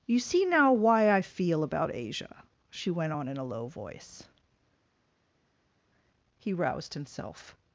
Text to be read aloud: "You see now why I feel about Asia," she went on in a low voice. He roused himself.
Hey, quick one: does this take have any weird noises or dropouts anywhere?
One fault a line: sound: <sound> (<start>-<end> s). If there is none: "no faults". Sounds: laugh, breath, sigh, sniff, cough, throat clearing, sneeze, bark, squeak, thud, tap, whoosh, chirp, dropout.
no faults